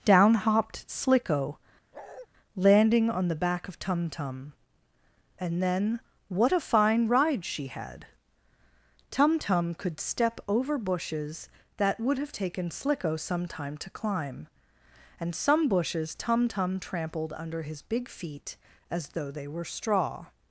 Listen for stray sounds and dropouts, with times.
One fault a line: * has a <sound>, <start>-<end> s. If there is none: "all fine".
* has a bark, 1.9-2.3 s